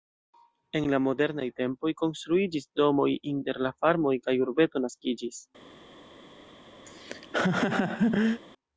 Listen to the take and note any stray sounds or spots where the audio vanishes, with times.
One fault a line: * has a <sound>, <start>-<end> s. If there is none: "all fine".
* has a laugh, 6.8-8.4 s